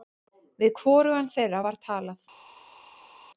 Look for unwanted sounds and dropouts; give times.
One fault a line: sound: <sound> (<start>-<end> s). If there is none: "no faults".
no faults